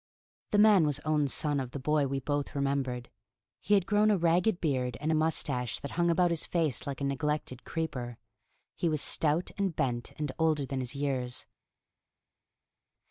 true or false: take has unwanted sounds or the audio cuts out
false